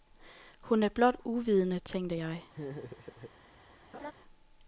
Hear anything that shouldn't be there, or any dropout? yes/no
yes